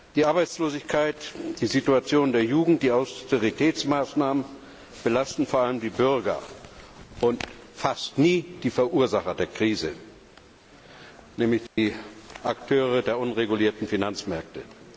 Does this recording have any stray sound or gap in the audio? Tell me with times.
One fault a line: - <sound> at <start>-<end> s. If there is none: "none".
- dropout at 11.7-11.8 s